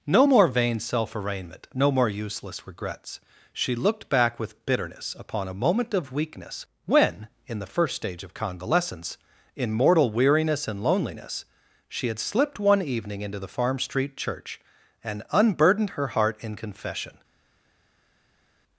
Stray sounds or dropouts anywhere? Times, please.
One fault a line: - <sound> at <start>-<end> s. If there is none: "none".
none